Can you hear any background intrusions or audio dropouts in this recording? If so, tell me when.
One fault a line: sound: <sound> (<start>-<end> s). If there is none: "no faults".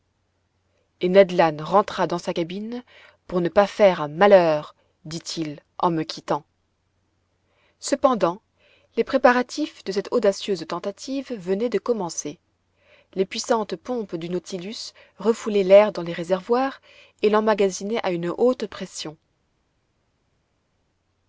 no faults